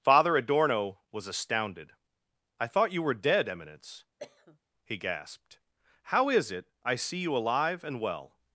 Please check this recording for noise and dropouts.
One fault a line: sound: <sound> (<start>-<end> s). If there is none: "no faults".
sound: cough (4.2-4.6 s)